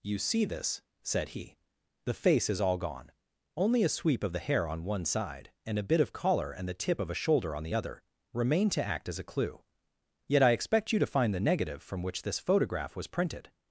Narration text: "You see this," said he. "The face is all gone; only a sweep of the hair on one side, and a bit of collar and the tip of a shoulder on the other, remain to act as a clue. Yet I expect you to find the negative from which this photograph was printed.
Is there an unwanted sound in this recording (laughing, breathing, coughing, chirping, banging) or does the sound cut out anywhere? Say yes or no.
no